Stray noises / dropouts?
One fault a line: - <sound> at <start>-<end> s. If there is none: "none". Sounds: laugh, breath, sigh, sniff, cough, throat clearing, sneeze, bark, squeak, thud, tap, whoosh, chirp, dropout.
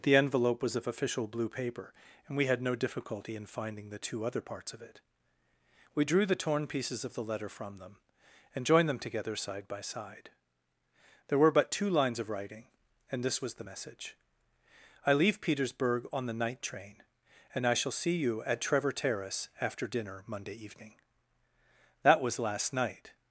none